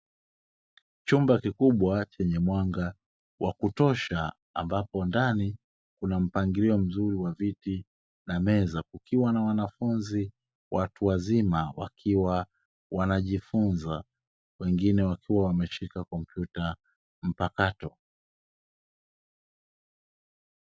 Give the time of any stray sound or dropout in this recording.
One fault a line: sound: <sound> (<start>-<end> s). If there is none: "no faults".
no faults